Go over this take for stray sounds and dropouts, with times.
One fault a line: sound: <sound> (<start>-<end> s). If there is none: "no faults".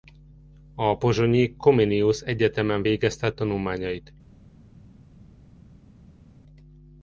no faults